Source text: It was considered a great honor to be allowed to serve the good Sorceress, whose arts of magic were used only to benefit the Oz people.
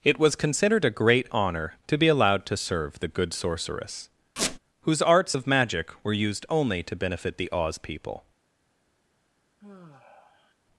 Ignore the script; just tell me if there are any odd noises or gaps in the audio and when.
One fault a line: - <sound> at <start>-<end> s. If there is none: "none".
- squeak at 4.4-4.6 s
- sigh at 9.6-10.5 s